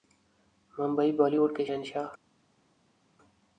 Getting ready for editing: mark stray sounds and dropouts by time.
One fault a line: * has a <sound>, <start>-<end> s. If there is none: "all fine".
all fine